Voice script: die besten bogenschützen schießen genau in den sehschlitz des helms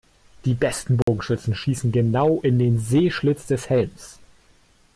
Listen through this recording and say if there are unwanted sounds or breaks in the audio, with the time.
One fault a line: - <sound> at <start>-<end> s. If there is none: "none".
- dropout at 1.0-1.1 s